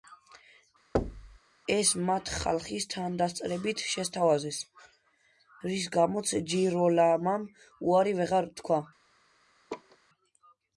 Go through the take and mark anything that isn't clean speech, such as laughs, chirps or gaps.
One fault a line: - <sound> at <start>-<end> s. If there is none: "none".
- thud at 0.9-1.4 s
- laugh at 9.7-10.0 s